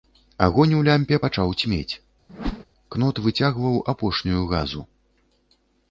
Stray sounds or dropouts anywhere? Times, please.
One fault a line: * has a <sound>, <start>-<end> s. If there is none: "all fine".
* has a whoosh, 2.3-2.7 s